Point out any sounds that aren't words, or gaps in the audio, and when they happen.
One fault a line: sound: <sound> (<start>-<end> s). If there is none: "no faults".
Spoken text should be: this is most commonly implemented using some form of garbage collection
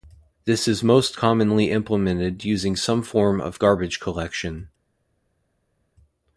no faults